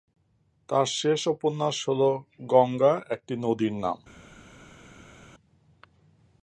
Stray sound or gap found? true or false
false